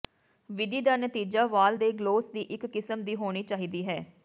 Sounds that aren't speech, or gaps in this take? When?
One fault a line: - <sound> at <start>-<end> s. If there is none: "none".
none